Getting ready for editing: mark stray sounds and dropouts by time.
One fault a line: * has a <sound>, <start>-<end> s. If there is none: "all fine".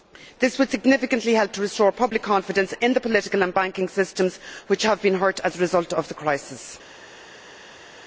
all fine